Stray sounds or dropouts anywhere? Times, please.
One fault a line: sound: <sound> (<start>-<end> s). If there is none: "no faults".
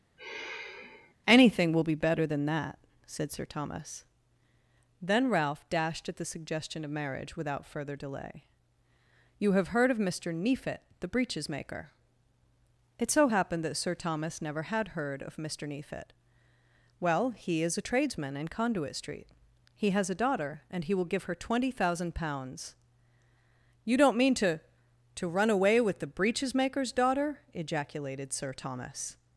sound: sigh (0.2-1.1 s)